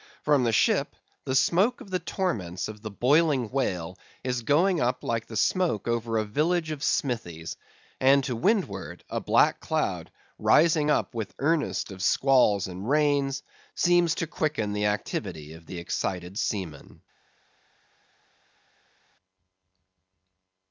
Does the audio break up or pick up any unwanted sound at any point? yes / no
no